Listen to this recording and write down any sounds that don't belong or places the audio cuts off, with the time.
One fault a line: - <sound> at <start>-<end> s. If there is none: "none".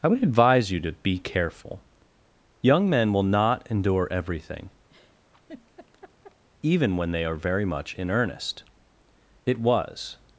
- laugh at 4.9-6.4 s